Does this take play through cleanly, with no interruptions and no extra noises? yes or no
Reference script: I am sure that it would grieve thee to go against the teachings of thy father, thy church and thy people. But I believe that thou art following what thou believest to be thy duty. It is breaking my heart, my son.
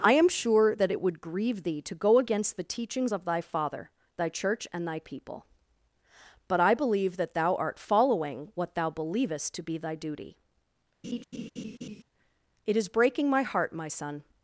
no